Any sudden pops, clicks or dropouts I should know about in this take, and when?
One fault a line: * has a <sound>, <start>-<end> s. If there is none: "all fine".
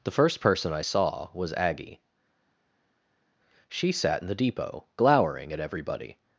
all fine